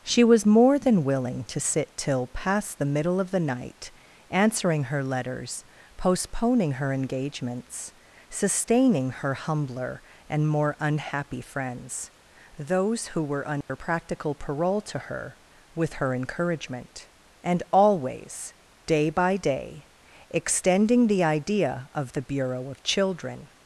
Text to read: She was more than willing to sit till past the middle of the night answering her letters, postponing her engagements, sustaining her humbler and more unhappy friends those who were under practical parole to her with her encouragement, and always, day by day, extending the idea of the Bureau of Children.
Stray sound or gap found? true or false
true